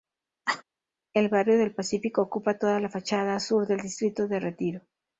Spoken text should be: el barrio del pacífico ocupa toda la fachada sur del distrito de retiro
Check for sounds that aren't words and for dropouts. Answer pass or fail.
fail